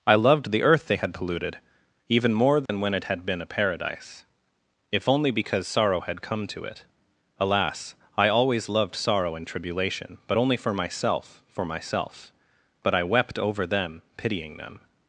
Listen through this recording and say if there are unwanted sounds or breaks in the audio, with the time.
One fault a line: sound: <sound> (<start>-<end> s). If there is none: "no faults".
sound: dropout (2.7-2.7 s)